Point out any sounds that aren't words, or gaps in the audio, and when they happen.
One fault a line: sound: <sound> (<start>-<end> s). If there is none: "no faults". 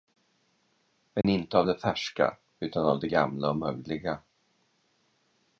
sound: dropout (1.2-1.2 s)